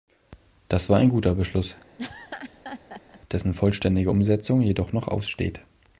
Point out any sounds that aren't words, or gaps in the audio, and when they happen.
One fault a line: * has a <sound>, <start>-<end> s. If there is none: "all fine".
* has a laugh, 2.0-3.2 s